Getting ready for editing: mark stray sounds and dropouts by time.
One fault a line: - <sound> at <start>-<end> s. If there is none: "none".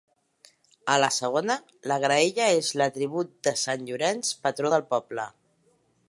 none